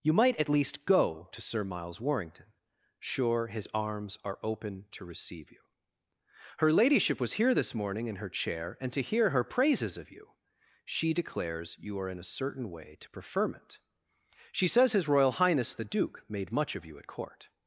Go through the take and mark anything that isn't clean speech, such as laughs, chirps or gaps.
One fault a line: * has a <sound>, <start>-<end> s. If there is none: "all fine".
all fine